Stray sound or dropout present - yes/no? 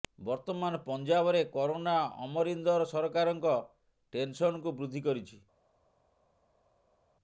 no